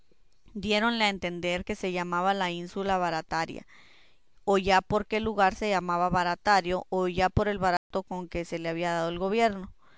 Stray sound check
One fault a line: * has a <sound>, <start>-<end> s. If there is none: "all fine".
* has a dropout, 7.8-7.9 s